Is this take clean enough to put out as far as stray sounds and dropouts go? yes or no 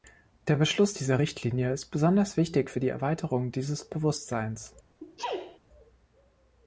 no